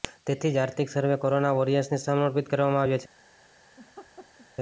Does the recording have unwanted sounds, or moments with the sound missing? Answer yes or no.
yes